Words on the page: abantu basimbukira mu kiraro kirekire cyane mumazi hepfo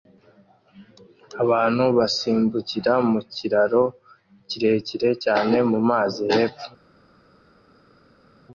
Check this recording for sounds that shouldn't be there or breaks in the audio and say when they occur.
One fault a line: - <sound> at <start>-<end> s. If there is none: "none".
none